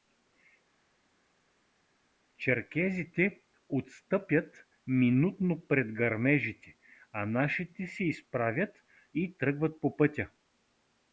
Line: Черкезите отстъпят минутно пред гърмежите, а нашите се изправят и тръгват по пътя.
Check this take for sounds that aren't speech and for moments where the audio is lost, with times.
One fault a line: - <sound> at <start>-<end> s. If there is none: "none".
none